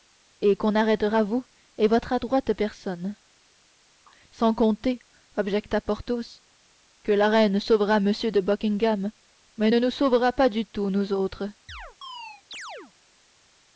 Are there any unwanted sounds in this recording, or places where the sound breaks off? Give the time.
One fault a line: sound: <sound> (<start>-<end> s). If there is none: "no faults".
sound: chirp (11.7-12.9 s)